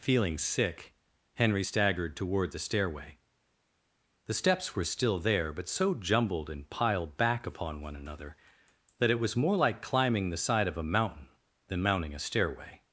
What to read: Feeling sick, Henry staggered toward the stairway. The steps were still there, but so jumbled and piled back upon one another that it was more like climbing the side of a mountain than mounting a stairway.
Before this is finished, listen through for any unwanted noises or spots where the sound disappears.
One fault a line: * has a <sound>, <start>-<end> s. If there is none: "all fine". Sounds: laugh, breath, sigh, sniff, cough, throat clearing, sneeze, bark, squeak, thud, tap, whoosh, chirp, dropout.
all fine